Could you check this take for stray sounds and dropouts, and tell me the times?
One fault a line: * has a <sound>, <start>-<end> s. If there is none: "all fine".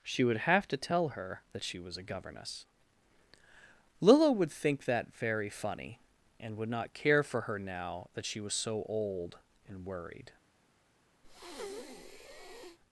* has a breath, 11.2-12.8 s